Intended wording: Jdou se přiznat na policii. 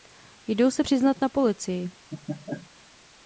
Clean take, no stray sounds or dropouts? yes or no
no